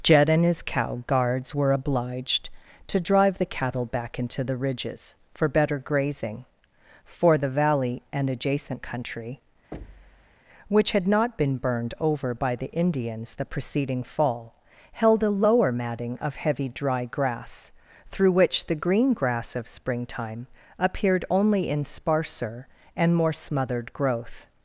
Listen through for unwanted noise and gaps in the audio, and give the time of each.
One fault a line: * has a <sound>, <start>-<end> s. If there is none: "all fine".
* has a thud, 9.7-10.4 s